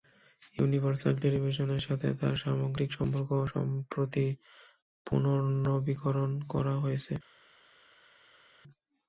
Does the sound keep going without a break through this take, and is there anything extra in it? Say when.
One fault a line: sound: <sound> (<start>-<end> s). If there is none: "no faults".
no faults